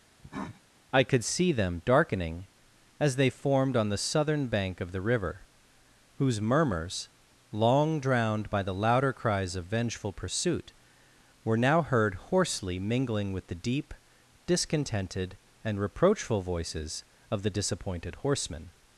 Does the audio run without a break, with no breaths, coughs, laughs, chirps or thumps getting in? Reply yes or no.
no